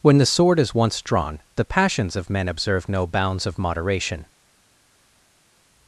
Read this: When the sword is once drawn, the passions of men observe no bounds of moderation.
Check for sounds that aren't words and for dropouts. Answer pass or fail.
pass